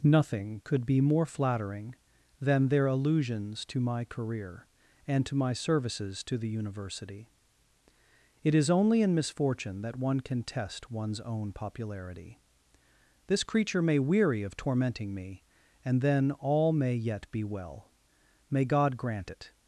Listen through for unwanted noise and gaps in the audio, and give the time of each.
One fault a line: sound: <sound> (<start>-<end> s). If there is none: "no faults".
no faults